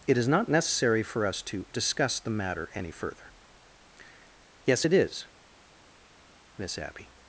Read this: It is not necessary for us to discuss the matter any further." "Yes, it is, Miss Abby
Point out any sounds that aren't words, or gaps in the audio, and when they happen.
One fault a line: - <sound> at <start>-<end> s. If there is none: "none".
none